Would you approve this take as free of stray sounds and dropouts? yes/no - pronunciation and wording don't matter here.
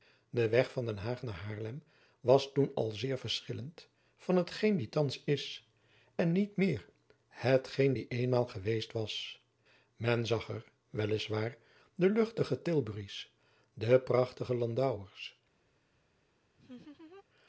no